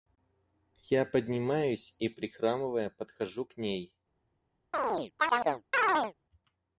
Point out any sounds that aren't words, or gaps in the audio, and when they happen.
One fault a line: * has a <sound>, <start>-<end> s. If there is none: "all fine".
* has a chirp, 4.7-6.1 s